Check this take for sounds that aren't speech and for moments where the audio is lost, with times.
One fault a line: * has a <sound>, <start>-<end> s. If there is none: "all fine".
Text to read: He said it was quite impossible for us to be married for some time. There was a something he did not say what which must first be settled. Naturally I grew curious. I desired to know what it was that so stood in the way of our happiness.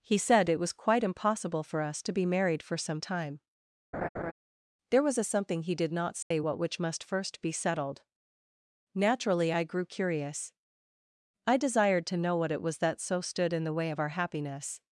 * has a laugh, 3.9-4.3 s
* has a dropout, 6.2-6.3 s